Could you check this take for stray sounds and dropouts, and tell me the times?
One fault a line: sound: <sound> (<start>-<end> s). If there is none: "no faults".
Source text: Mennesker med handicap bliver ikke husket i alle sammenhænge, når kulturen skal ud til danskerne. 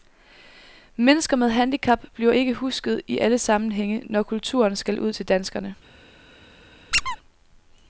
sound: squeak (6.9-7.2 s)